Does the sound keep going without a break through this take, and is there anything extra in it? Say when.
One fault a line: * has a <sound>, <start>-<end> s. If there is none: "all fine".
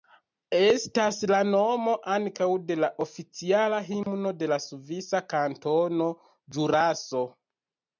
* has a dropout, 4.0-4.1 s